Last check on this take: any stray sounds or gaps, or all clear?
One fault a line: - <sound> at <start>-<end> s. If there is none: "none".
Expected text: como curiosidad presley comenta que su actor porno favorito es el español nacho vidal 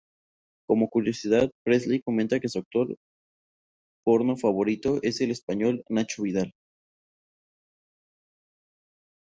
none